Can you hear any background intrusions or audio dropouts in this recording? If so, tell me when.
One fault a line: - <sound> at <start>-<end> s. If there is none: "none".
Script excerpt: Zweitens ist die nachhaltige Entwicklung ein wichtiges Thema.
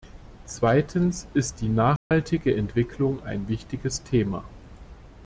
- dropout at 2.0-2.1 s